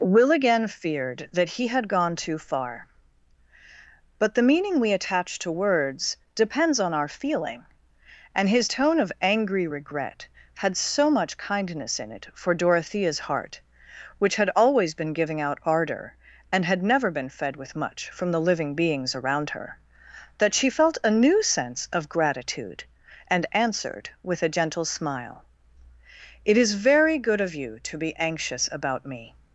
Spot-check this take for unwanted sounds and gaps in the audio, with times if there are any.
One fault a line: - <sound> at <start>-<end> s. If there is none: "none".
none